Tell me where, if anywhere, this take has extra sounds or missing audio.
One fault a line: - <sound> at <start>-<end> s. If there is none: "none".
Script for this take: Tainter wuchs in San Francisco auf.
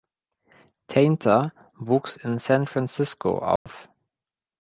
- dropout at 3.6-3.7 s